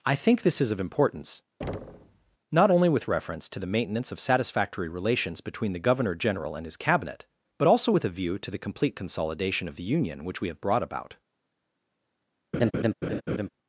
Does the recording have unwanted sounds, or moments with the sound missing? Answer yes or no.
yes